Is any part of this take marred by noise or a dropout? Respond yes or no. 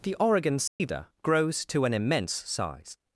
yes